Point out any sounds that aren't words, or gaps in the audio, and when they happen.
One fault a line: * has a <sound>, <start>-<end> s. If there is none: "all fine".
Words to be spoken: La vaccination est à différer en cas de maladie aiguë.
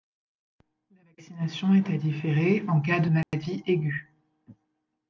* has a dropout, 3.2-3.3 s